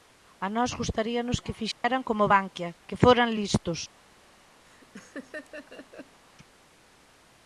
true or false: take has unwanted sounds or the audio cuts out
true